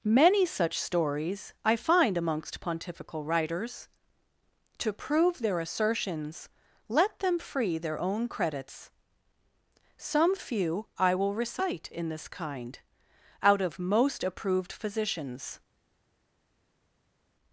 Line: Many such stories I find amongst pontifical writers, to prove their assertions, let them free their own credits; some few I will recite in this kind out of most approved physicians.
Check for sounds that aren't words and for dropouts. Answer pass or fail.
pass